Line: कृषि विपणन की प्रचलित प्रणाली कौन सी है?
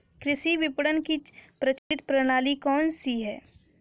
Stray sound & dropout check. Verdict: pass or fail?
fail